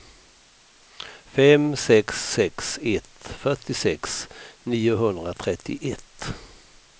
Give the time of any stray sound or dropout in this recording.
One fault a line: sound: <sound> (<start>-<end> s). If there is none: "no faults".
no faults